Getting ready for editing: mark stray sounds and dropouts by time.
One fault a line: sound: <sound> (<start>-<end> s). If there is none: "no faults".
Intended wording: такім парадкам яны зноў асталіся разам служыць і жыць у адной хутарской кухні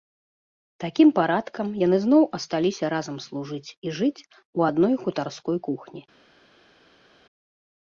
no faults